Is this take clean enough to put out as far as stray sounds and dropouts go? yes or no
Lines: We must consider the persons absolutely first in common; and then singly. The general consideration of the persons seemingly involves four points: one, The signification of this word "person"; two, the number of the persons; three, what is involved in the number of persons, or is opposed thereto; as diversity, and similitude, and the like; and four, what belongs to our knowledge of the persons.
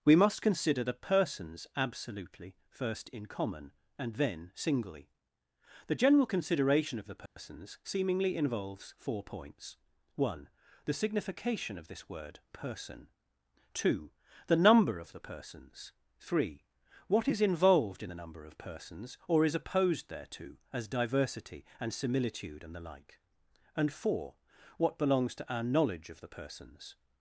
no